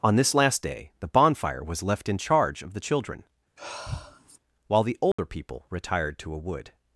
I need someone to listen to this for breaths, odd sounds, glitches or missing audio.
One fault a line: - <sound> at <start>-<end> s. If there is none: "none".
- sigh at 3.6-4.4 s
- dropout at 5.1-5.2 s